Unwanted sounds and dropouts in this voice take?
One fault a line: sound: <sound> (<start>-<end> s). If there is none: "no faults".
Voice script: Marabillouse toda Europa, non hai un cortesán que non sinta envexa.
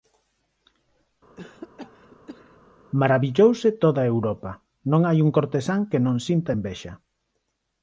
sound: cough (1.4-2.6 s)